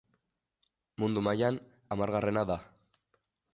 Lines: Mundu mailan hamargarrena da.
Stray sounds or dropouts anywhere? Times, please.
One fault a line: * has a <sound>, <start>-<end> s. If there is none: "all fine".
all fine